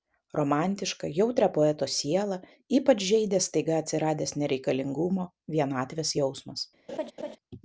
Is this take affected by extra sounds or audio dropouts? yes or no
yes